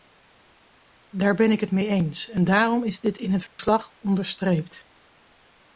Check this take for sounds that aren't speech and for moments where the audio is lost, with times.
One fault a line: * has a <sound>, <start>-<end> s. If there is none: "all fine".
* has a dropout, 3.5-3.6 s